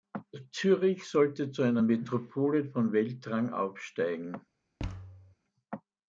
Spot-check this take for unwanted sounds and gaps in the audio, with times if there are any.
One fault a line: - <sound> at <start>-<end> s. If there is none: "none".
- thud at 4.8-5.4 s